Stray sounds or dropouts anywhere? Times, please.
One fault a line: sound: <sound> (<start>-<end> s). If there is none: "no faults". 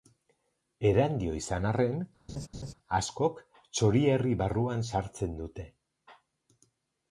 sound: laugh (2.3-2.7 s)